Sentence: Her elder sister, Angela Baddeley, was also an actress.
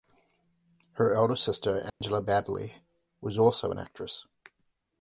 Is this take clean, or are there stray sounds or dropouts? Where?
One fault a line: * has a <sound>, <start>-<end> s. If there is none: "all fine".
* has a dropout, 1.9-2.0 s